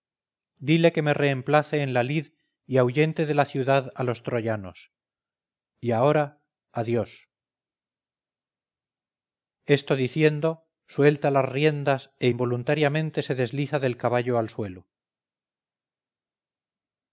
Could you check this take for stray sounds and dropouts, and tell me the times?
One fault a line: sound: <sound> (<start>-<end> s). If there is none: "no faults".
no faults